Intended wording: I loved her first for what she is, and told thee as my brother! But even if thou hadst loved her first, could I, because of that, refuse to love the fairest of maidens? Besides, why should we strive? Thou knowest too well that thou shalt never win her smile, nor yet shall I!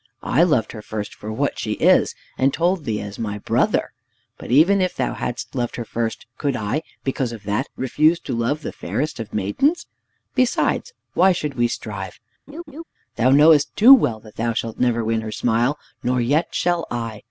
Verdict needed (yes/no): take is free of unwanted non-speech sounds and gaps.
no